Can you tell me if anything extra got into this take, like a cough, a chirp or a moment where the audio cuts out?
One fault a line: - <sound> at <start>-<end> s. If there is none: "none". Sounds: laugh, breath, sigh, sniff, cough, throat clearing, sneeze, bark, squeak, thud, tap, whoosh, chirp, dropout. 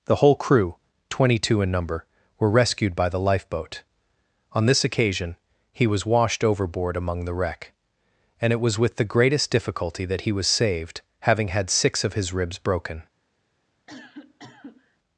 - cough at 13.9-15.0 s